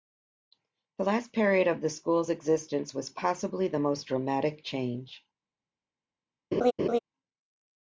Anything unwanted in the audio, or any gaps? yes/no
yes